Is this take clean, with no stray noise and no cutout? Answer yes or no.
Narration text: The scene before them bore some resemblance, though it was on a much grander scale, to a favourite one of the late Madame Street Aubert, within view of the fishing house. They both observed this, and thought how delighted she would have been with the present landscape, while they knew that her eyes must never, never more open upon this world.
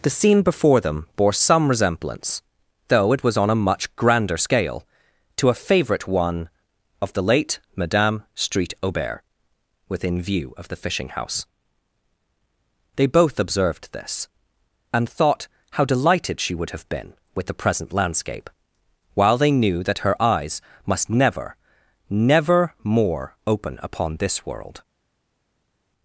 yes